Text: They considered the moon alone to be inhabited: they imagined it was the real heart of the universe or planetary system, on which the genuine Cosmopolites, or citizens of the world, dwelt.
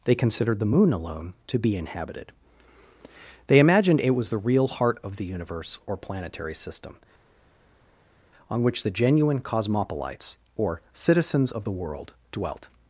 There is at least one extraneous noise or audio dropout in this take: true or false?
false